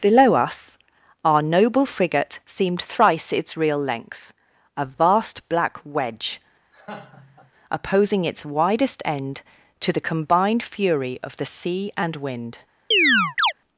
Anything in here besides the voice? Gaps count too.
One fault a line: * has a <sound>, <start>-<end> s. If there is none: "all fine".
* has a laugh, 6.7-7.5 s
* has a chirp, 12.9-13.5 s